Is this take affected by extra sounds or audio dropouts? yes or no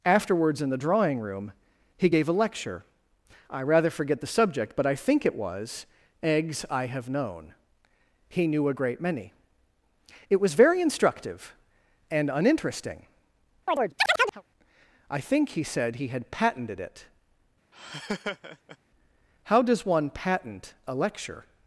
yes